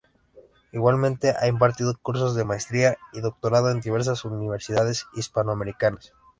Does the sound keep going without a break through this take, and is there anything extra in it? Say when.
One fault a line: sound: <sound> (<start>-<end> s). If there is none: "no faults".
no faults